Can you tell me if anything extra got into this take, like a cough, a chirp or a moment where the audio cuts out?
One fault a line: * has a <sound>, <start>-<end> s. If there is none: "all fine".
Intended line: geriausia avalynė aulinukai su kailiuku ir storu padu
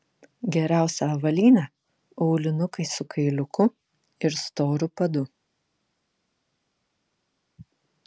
all fine